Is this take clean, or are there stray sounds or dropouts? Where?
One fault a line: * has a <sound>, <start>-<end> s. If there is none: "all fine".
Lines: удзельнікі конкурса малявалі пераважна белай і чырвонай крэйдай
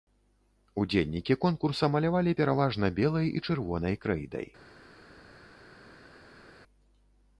all fine